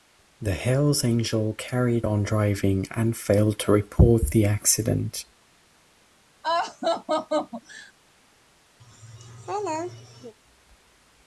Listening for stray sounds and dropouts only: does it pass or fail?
fail